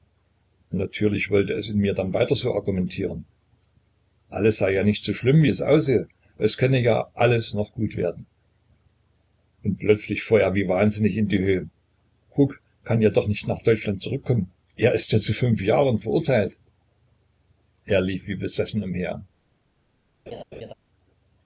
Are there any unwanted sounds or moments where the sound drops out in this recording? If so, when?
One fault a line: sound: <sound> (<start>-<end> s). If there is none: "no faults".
sound: laugh (20.3-20.7 s)